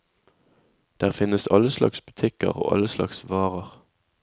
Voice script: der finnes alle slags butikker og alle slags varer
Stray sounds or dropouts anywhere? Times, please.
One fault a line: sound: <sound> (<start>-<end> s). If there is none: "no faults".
no faults